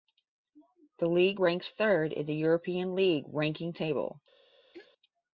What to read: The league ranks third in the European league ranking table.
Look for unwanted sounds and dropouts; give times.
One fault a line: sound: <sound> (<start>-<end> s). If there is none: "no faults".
sound: throat clearing (4.7-4.9 s)